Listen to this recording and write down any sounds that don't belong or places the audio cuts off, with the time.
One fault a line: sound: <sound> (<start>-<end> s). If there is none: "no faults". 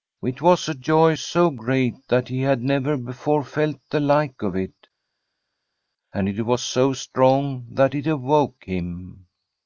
no faults